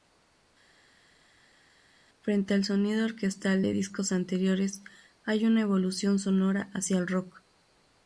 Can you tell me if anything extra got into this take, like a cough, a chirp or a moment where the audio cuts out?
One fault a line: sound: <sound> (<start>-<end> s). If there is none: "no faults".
no faults